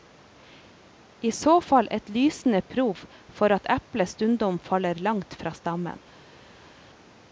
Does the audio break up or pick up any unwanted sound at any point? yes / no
no